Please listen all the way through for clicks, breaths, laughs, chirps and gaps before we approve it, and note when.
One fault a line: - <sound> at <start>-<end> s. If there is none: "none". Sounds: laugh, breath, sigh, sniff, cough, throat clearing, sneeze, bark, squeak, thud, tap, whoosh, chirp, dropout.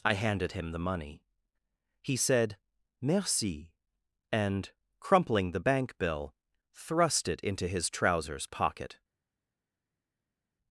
none